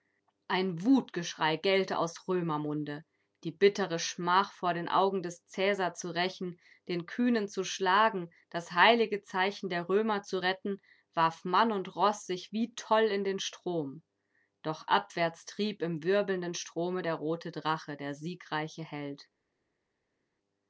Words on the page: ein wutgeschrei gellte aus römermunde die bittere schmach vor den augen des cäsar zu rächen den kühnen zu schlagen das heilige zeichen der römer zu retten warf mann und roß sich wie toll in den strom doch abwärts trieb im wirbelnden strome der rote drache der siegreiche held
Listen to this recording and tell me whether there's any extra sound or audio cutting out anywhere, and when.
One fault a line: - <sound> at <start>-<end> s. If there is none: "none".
none